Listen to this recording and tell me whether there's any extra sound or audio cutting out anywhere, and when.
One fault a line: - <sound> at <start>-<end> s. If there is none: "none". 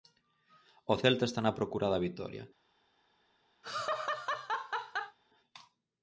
- laugh at 3.6-5.2 s